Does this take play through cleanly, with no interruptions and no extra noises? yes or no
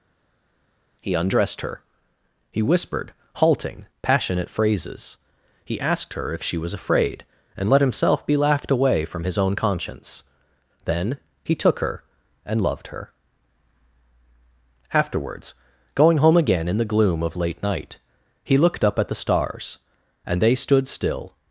yes